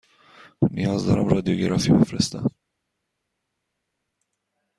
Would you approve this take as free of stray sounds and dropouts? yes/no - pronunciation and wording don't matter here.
yes